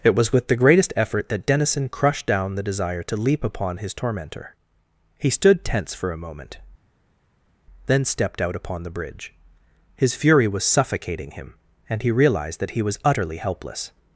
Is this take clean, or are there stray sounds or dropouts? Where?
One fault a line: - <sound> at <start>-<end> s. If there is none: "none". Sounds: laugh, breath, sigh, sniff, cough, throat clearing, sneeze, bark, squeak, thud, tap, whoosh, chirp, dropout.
none